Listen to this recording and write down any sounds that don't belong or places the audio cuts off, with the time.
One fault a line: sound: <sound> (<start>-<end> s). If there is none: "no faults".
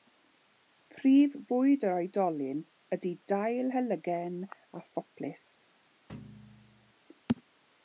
sound: thud (6.1-6.9 s)